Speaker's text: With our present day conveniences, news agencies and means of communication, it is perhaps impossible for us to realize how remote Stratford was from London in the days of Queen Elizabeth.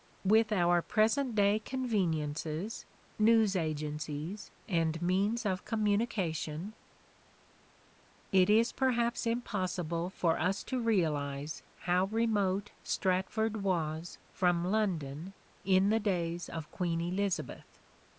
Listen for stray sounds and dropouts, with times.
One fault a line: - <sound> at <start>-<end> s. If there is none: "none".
none